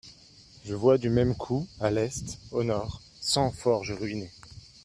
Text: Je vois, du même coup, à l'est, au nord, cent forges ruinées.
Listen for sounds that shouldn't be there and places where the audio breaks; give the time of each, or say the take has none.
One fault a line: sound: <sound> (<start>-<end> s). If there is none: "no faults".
no faults